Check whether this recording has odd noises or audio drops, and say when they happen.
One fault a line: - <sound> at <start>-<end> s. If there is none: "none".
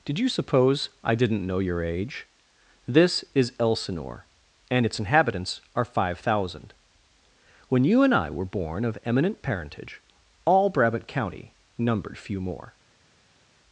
none